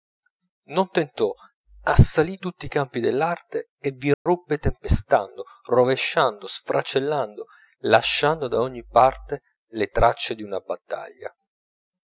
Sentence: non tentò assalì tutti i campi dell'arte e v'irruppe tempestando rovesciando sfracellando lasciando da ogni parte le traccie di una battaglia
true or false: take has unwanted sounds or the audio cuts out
true